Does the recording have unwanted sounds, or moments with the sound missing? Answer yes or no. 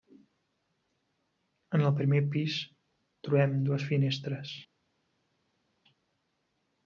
no